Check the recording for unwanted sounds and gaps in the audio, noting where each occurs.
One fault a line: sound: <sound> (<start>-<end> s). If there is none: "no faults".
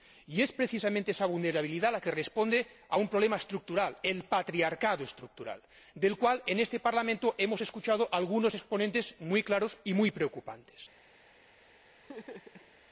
sound: laugh (12.0-12.7 s)